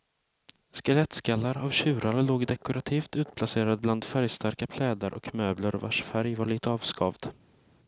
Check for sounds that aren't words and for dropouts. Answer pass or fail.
pass